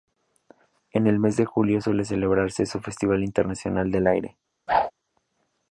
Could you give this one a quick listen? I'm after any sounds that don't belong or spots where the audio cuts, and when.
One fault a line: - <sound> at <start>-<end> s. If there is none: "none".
- whoosh at 4.7-4.9 s